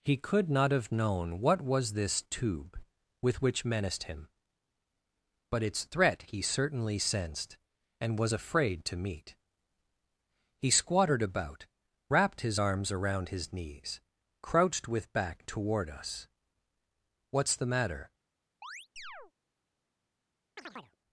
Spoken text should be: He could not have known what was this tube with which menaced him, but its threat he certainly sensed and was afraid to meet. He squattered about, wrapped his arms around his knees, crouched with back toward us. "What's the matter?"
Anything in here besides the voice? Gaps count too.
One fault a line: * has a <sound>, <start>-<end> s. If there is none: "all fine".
* has a chirp, 18.6-19.3 s
* has a chirp, 20.6-21.0 s